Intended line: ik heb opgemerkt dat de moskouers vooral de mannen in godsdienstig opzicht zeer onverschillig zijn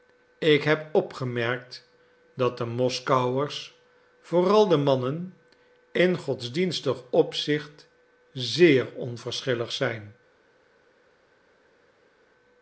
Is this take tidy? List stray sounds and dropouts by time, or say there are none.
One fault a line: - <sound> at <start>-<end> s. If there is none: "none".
none